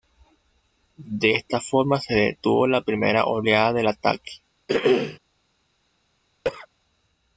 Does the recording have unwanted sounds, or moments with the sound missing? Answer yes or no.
yes